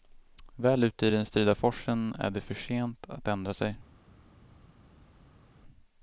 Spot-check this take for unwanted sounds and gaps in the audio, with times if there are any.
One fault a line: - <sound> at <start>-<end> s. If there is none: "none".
none